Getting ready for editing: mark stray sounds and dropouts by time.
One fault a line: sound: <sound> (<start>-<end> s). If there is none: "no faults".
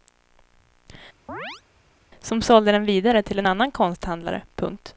sound: chirp (1.3-1.6 s)